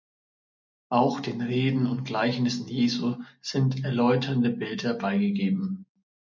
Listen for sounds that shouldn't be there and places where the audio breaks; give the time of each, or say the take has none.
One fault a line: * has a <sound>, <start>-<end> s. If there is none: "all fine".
all fine